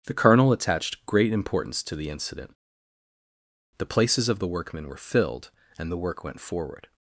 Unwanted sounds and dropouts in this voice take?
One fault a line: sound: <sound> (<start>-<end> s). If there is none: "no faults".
no faults